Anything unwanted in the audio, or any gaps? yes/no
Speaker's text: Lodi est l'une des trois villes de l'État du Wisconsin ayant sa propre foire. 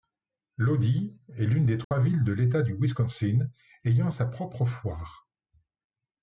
yes